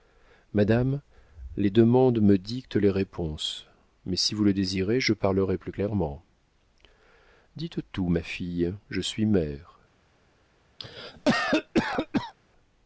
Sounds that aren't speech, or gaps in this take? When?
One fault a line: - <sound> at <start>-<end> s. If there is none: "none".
- cough at 10.8-12.3 s